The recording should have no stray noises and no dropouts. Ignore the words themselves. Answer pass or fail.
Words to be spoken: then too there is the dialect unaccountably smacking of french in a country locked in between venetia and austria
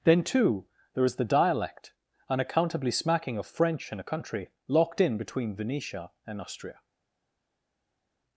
pass